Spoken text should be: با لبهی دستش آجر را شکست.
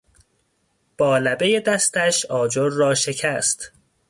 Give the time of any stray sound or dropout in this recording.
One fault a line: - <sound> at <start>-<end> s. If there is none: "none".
none